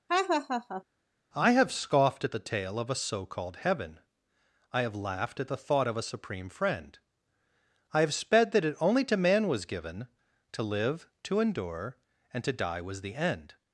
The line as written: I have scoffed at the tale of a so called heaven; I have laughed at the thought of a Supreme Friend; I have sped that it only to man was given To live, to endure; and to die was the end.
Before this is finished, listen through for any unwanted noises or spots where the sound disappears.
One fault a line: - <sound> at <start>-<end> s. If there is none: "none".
- laugh at 0.1-0.8 s